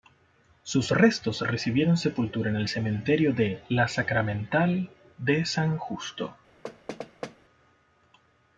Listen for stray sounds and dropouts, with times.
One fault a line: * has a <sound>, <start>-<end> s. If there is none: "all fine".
* has a thud, 6.6-7.4 s